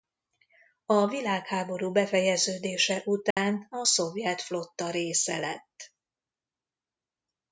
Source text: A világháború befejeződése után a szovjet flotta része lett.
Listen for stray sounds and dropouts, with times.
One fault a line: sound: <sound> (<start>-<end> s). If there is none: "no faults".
sound: dropout (3.3-3.4 s)